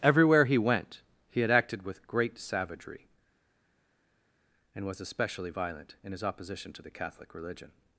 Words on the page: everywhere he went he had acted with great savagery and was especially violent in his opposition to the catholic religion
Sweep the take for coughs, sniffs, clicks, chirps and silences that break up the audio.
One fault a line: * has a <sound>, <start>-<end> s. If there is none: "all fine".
all fine